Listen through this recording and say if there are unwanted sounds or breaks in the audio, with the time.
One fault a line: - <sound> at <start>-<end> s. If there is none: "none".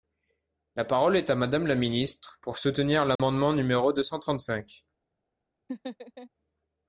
- dropout at 3.2-3.2 s
- laugh at 5.7-6.3 s